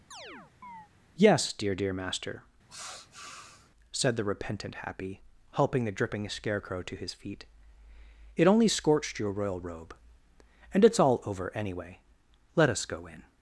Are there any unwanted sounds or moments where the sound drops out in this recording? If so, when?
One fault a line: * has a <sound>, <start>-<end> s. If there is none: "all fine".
* has a chirp, 0.1-0.9 s
* has a sniff, 2.7-3.7 s